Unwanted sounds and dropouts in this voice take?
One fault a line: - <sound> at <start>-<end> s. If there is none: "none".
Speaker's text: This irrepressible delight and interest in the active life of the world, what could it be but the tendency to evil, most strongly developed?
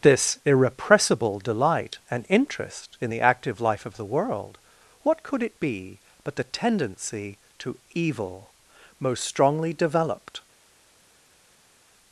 none